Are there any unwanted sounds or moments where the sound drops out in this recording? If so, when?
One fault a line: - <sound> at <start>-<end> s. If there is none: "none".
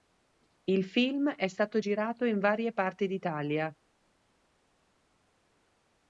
none